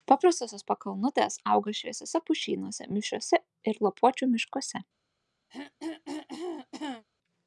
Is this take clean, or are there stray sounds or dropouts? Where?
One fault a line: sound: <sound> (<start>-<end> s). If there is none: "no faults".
sound: throat clearing (5.5-7.1 s)